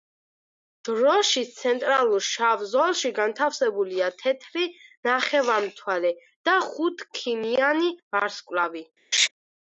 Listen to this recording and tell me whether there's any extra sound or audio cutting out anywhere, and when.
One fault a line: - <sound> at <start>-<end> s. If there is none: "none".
- laugh at 9.1-9.3 s